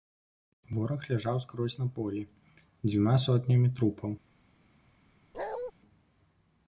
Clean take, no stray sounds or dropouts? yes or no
no